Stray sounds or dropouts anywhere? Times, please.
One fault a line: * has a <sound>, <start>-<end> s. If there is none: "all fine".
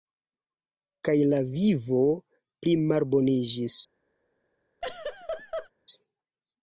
* has a laugh, 4.8-5.7 s